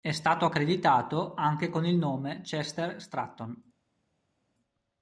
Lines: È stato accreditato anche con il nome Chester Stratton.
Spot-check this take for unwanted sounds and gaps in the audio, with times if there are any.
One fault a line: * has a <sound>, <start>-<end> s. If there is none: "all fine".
all fine